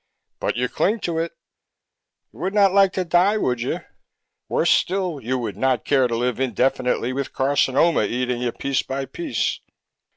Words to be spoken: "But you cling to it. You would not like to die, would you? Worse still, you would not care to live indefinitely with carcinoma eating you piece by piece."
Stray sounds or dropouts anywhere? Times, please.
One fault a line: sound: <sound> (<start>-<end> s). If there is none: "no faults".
no faults